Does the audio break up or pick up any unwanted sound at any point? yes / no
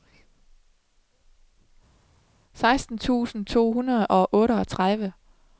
no